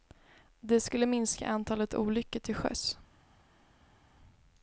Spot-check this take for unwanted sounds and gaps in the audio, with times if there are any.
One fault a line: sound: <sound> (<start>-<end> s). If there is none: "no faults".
no faults